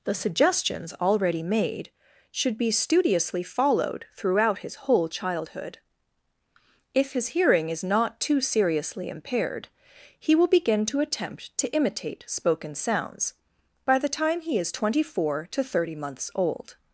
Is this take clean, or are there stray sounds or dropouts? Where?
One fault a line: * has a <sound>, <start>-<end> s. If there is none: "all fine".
all fine